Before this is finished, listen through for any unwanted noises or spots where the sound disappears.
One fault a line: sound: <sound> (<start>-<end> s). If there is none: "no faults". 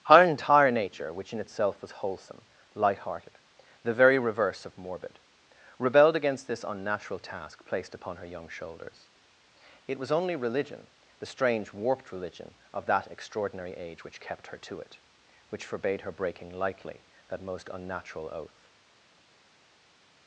no faults